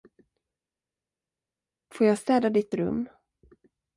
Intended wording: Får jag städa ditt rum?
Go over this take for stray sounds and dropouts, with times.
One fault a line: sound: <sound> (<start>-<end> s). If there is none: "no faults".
no faults